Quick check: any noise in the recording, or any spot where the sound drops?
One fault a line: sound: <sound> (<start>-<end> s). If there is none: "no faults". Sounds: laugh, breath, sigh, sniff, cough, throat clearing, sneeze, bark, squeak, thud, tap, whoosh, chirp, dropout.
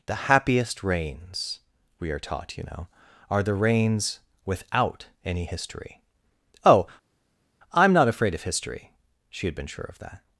no faults